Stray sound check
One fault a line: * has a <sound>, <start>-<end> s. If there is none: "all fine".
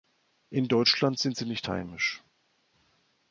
all fine